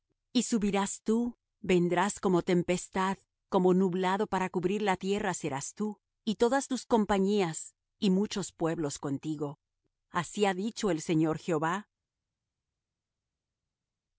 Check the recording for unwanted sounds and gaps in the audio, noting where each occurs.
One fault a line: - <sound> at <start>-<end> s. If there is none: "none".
none